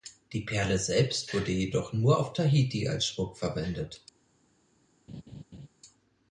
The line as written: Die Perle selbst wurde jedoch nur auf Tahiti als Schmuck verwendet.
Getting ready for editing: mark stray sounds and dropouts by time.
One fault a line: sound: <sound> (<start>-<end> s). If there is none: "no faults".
sound: laugh (5.1-5.7 s)